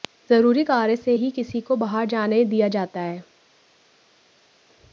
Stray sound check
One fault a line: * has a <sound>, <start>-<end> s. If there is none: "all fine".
all fine